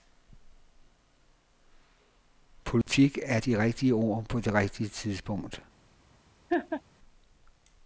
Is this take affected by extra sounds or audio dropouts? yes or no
yes